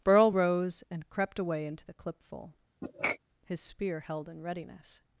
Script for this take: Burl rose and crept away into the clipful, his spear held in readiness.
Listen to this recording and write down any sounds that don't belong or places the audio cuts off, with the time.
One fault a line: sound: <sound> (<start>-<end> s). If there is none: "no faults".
sound: sniff (2.8-3.2 s)